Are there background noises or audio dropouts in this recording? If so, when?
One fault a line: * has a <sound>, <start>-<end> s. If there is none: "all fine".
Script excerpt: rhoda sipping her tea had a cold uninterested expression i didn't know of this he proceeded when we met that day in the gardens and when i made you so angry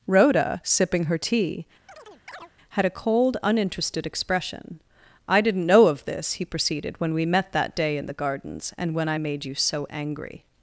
* has a chirp, 1.9-2.5 s